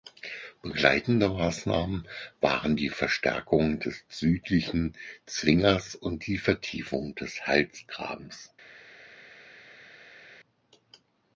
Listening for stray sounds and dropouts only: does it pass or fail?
pass